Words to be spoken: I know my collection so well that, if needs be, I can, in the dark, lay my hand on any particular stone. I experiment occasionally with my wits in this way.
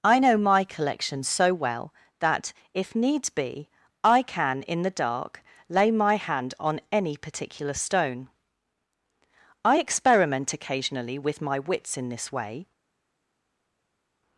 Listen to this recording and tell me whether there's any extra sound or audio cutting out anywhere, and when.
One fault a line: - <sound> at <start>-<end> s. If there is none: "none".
none